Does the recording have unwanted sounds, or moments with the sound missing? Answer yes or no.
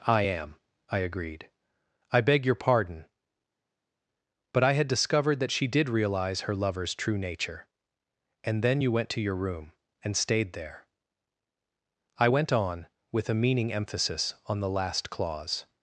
no